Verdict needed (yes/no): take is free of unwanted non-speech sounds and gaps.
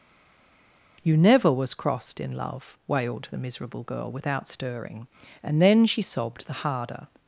yes